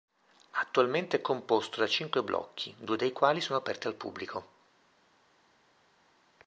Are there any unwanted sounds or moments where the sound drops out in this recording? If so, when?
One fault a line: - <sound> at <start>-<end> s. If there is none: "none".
none